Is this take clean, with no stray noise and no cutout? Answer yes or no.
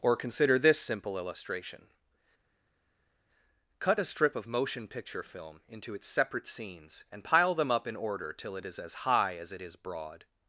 yes